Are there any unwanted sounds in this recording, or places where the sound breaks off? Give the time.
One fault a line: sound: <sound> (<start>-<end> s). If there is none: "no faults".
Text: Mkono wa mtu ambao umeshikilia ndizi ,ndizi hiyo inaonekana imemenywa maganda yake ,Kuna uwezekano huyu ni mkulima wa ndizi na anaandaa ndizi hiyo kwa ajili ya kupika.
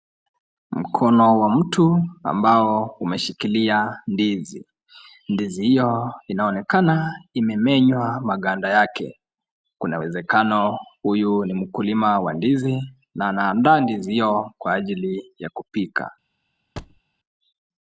sound: thud (16.8-17.0 s)